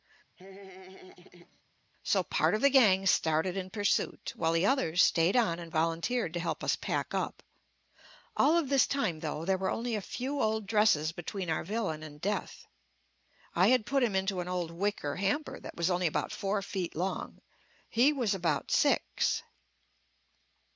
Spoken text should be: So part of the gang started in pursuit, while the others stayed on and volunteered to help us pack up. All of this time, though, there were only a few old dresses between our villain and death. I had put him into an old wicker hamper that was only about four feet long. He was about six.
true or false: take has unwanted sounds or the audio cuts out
true